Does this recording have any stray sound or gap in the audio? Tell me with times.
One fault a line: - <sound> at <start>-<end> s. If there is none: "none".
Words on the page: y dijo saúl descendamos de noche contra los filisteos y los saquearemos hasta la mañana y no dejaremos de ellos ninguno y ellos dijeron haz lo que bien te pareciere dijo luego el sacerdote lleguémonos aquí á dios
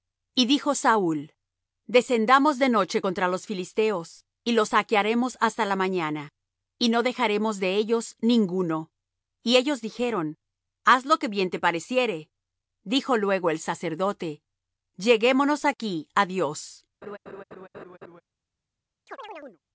- laugh at 17.0-18.2 s
- chirp at 19.1-19.6 s